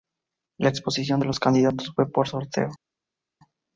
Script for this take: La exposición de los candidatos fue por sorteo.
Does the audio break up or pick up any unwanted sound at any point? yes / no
no